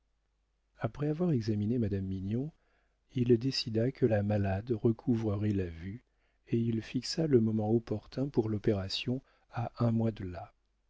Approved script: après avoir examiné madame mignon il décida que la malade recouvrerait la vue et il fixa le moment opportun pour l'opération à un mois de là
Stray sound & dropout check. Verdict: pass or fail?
pass